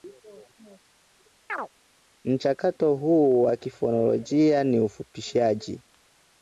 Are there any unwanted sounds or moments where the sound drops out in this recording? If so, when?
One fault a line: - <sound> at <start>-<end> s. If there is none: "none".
- chirp at 1.5-1.7 s